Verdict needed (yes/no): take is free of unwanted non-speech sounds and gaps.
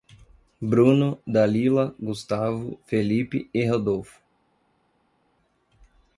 yes